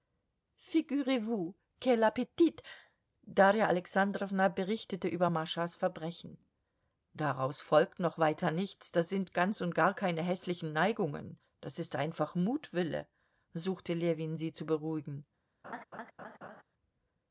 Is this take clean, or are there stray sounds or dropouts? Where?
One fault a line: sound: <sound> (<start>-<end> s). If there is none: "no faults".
sound: laugh (15.6-16.6 s)